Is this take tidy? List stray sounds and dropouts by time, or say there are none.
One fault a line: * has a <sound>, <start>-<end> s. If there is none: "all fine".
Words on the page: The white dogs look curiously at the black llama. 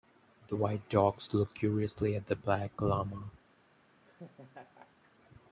* has a laugh, 4.0-5.1 s